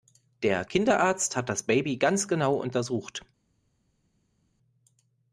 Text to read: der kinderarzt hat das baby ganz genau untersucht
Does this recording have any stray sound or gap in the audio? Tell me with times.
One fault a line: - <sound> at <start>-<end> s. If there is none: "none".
none